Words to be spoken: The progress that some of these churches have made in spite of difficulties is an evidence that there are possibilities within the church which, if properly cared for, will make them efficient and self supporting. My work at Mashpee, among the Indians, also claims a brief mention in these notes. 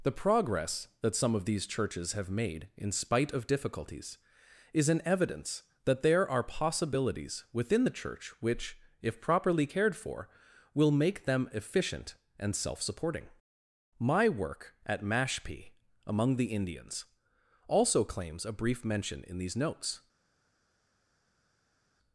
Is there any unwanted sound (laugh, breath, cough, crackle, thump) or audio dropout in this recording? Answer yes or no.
no